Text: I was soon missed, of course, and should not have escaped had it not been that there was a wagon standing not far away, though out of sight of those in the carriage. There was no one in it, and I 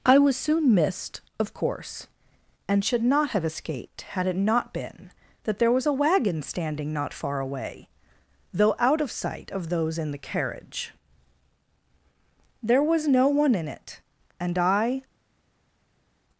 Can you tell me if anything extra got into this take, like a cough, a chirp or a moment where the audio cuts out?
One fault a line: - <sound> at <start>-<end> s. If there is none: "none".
none